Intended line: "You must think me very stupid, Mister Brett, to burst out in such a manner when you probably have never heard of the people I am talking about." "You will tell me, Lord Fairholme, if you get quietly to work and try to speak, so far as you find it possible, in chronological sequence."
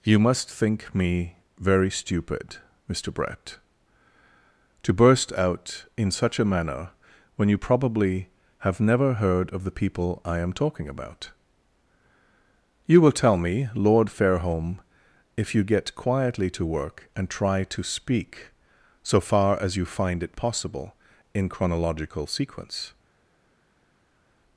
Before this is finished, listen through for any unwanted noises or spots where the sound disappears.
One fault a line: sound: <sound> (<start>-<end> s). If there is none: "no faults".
no faults